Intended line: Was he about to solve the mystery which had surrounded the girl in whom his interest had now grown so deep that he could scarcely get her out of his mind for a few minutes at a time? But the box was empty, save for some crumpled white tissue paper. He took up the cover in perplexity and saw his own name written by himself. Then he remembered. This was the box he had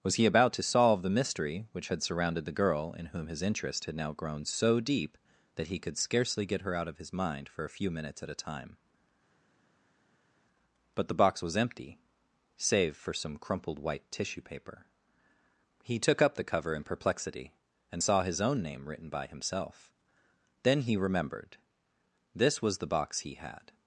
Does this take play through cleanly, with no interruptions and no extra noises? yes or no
yes